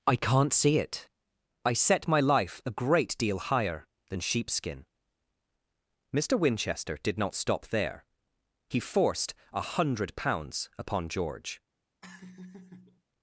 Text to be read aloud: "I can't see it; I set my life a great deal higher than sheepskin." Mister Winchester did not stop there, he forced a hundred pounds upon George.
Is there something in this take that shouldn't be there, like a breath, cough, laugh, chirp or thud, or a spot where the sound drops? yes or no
yes